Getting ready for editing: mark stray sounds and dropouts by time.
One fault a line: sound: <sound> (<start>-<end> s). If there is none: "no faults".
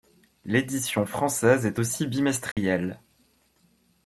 sound: dropout (2.5-2.6 s)